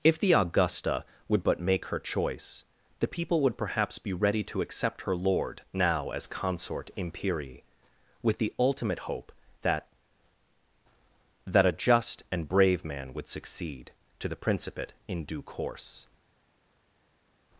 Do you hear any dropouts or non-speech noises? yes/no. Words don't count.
no